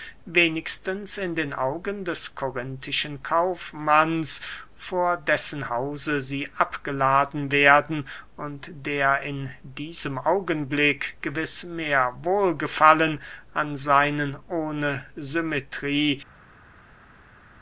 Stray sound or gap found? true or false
false